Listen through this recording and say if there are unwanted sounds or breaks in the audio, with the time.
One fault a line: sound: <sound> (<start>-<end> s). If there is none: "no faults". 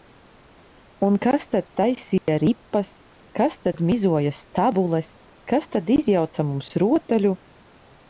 sound: dropout (2.2-2.3 s)